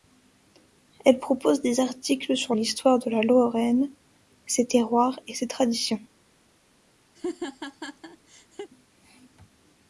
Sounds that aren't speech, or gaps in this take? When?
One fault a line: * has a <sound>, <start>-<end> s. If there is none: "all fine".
* has a laugh, 7.2-8.7 s